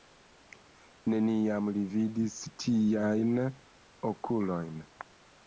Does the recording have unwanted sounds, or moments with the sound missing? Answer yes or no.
no